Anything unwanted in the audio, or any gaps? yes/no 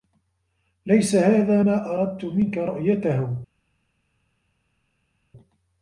no